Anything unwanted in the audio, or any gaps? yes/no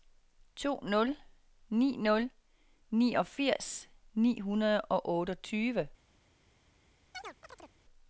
yes